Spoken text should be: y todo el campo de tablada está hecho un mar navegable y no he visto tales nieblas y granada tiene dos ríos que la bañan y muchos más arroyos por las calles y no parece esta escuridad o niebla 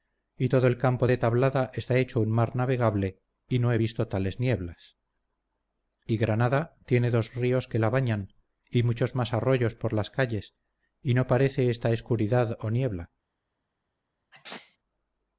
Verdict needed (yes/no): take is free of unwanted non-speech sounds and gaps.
no